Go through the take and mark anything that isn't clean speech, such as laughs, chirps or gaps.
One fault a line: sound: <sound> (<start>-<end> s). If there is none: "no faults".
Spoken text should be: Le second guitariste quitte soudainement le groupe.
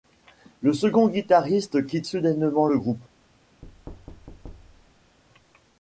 sound: thud (3.6-5.2 s)